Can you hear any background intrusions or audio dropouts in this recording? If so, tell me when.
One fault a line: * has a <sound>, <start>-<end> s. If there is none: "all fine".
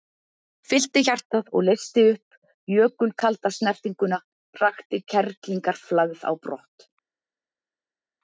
all fine